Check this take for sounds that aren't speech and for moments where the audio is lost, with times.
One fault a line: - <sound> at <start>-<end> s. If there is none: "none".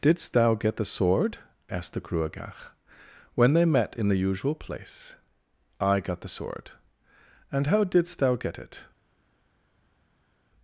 none